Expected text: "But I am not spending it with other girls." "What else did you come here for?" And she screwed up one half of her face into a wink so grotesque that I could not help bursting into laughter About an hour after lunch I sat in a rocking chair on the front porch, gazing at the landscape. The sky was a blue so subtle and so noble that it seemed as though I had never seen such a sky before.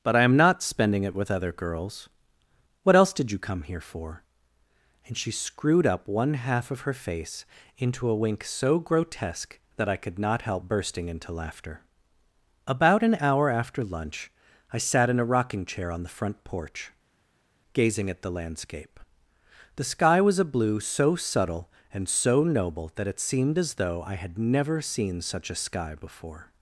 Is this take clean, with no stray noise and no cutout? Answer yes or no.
yes